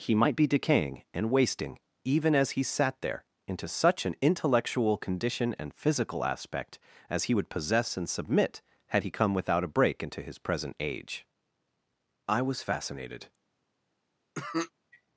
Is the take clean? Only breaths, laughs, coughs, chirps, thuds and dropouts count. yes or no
no